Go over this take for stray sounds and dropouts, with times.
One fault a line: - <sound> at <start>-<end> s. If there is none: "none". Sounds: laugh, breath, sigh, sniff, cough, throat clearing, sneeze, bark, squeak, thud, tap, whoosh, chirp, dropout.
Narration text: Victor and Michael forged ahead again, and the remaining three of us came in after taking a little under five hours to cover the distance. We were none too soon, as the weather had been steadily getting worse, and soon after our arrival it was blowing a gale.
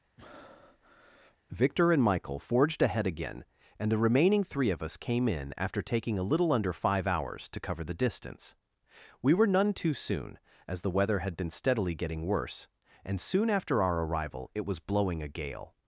- breath at 0.2-1.4 s